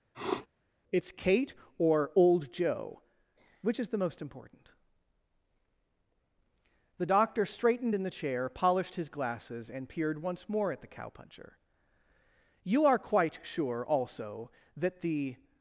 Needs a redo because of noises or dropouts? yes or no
yes